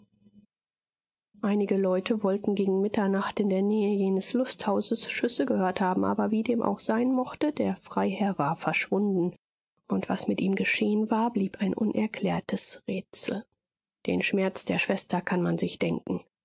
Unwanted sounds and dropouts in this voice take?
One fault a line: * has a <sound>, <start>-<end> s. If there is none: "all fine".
all fine